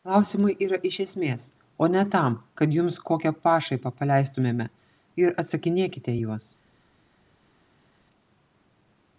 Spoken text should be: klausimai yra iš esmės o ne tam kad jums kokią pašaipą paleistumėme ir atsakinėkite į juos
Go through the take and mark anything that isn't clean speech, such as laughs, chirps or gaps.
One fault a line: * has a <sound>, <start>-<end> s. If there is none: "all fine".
all fine